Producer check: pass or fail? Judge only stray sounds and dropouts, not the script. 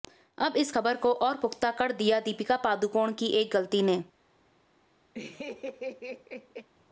fail